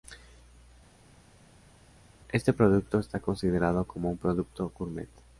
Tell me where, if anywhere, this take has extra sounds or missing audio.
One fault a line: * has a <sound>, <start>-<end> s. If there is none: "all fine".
all fine